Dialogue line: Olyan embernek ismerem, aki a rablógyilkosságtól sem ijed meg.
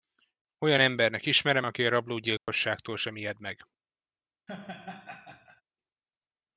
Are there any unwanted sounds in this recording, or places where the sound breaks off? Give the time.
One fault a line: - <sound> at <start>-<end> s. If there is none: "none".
- dropout at 2.4-2.5 s
- laugh at 4.5-5.6 s